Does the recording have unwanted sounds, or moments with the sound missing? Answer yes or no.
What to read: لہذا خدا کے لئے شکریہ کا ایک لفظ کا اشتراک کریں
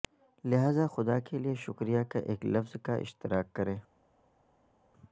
no